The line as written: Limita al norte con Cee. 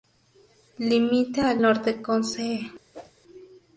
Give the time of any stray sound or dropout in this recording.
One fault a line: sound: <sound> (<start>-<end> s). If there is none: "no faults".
sound: whoosh (2.9-3.1 s)